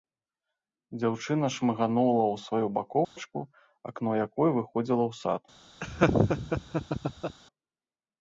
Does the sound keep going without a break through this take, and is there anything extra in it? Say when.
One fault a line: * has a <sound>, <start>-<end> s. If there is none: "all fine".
* has a dropout, 3.0-3.2 s
* has a laugh, 5.8-7.4 s